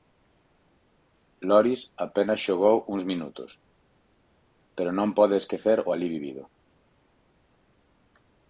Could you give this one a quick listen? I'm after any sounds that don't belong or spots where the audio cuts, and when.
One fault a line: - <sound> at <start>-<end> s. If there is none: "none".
none